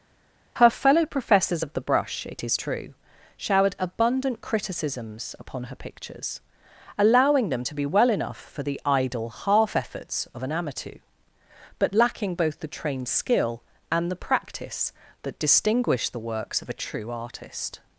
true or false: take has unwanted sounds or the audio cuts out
false